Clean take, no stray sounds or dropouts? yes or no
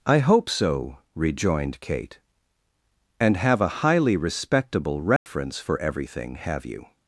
no